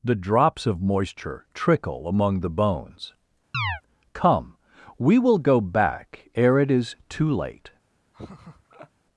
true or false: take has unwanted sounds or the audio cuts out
true